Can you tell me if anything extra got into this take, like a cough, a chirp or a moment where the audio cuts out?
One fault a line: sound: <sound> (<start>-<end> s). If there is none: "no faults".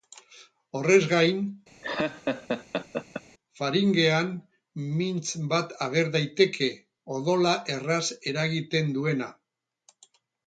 sound: laugh (1.8-3.2 s)